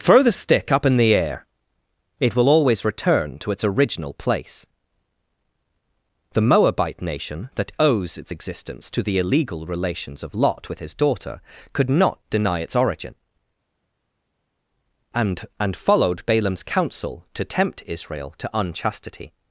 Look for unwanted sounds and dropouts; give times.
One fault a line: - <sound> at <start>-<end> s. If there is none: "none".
none